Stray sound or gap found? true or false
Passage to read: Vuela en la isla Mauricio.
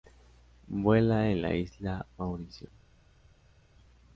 false